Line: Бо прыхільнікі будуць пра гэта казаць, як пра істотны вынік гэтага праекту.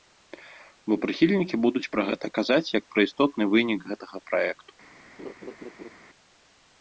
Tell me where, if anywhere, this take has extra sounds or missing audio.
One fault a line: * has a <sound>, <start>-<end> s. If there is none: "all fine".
* has a laugh, 5.2-5.9 s